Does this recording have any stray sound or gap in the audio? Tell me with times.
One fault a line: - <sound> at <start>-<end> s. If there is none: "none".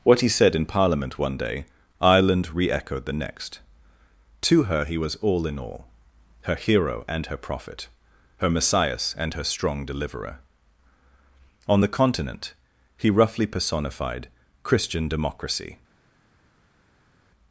none